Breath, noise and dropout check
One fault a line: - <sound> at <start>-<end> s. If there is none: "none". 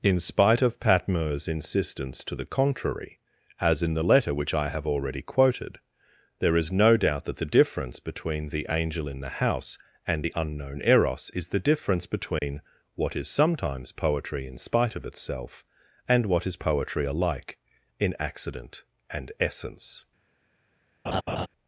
- dropout at 12.4-12.4 s
- laugh at 21.1-21.5 s